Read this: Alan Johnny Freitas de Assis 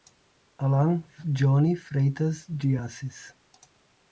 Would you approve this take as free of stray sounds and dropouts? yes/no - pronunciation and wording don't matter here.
yes